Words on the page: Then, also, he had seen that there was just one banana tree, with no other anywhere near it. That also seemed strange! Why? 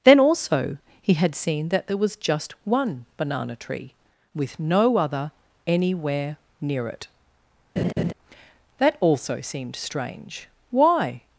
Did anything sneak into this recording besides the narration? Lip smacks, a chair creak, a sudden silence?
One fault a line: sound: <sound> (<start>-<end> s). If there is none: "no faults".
sound: laugh (7.8-8.1 s)